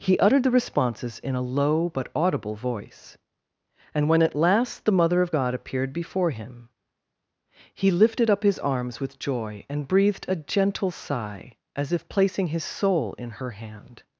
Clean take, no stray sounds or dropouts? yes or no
yes